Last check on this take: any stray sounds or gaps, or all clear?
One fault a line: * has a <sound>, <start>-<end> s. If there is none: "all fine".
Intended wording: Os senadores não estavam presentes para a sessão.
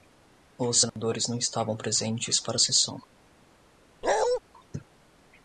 * has a dropout, 0.9-1.0 s
* has a bark, 4.0-4.4 s